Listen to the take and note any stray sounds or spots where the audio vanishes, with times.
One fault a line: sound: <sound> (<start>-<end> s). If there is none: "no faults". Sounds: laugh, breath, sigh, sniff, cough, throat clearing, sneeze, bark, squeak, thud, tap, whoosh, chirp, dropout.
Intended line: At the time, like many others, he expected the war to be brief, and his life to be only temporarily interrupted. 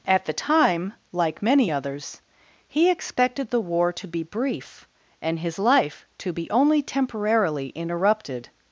no faults